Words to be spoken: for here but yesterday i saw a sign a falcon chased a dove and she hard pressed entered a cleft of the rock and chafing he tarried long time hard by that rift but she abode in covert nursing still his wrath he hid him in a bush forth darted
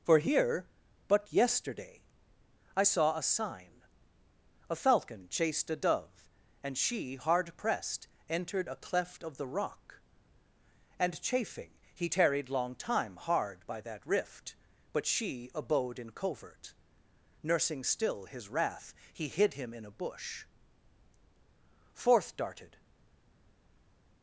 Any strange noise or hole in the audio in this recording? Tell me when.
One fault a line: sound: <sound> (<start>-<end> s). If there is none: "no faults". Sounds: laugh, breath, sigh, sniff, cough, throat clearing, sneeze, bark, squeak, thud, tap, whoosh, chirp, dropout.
no faults